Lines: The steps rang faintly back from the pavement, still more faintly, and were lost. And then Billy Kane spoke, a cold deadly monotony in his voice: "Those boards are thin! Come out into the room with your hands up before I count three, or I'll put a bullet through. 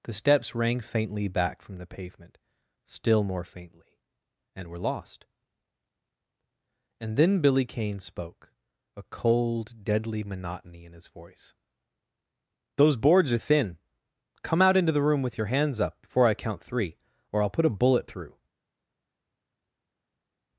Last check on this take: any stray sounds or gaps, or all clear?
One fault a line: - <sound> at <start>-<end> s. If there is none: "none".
none